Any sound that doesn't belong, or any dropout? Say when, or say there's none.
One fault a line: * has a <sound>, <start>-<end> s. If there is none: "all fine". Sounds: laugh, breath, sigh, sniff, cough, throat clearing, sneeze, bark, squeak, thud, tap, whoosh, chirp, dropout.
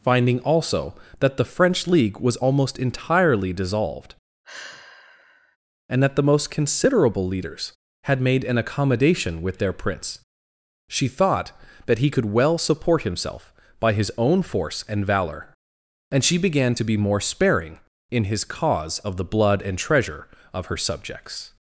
* has a sigh, 4.4-5.6 s